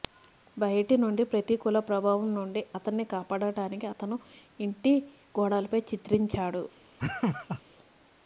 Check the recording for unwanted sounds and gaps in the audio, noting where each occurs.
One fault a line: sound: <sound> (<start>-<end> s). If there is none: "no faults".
sound: laugh (7.0-7.6 s)